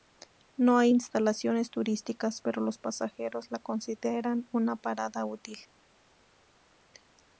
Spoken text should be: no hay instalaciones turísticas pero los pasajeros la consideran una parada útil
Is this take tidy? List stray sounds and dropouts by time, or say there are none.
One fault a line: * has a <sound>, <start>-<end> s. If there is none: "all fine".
all fine